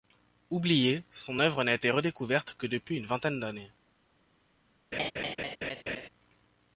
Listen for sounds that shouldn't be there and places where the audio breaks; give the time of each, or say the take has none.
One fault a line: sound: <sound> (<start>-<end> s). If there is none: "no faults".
sound: laugh (4.9-6.1 s)